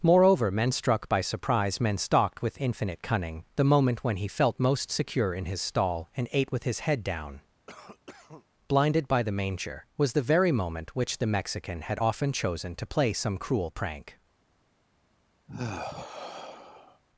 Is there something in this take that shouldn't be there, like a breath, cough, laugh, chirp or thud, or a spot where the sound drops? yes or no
yes